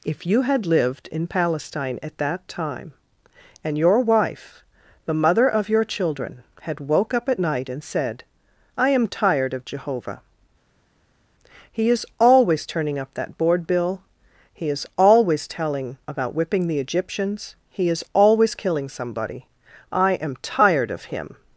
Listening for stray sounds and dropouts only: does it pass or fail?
pass